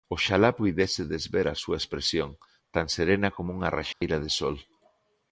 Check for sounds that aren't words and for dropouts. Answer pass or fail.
fail